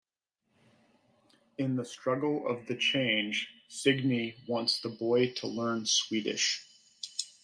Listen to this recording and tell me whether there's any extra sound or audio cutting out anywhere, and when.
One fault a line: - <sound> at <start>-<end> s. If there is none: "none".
none